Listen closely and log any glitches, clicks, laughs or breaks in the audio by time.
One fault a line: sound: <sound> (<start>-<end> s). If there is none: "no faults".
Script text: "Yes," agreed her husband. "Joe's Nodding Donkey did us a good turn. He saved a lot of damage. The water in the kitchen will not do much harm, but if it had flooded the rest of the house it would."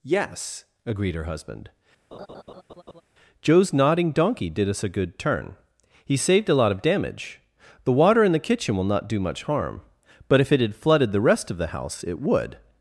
sound: laugh (2.1-3.0 s)